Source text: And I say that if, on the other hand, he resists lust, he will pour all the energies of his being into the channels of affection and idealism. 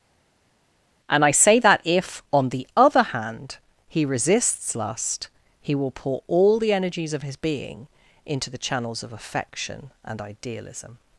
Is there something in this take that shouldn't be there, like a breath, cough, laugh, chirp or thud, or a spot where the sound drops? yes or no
no